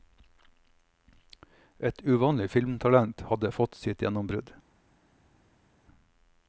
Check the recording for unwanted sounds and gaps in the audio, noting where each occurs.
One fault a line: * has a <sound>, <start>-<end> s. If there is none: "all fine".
all fine